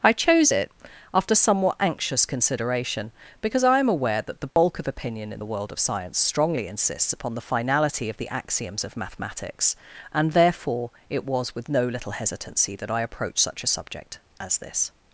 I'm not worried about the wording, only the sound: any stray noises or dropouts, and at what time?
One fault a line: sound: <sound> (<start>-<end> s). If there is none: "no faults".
sound: dropout (4.5-4.6 s)